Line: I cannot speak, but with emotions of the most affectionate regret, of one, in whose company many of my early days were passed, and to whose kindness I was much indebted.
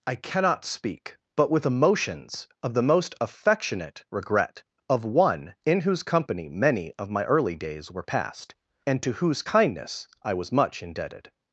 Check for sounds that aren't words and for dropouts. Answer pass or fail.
pass